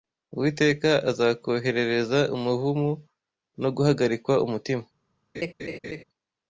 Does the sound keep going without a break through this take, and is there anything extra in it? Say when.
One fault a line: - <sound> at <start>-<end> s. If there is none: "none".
- laugh at 5.3-6.0 s